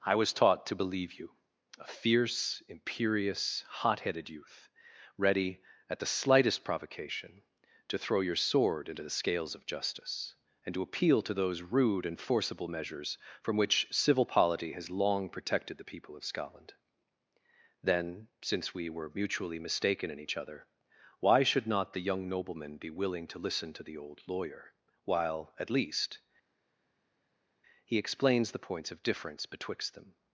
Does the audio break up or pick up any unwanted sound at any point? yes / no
no